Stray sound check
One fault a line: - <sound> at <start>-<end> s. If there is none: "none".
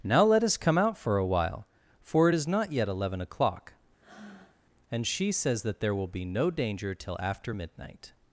- breath at 4.0-4.6 s